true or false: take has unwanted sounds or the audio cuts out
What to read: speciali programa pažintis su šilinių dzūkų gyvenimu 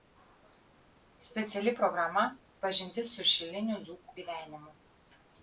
false